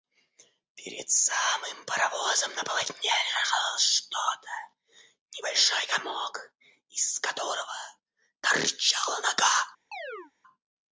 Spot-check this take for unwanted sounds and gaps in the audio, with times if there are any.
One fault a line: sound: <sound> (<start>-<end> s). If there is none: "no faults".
sound: chirp (9.9-10.3 s)